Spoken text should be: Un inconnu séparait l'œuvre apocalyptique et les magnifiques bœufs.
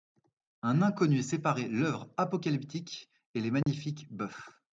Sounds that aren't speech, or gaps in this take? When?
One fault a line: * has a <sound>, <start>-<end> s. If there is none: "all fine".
* has a dropout, 3.6-3.7 s